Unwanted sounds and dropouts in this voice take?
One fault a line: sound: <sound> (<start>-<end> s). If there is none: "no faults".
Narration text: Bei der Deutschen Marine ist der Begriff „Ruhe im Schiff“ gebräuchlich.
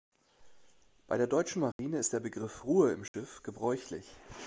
sound: dropout (1.7-1.8 s)
sound: dropout (3.1-3.1 s)